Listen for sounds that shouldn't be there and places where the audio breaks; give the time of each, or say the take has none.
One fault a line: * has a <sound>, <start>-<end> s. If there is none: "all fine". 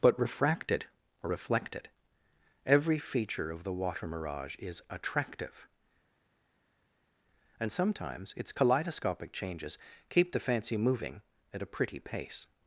all fine